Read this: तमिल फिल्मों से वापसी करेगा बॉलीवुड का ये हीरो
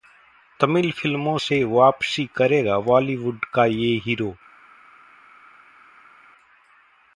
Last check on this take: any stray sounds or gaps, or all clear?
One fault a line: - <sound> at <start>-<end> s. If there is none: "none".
none